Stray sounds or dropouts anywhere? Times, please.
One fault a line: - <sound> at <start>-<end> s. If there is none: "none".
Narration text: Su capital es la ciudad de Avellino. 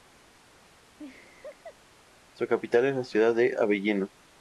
- laugh at 1.0-1.8 s